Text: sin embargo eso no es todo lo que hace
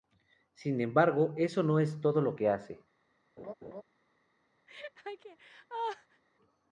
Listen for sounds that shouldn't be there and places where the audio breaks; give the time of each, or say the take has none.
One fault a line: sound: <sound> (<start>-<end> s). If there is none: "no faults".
sound: laugh (3.4-3.8 s)
sound: laugh (4.7-6.2 s)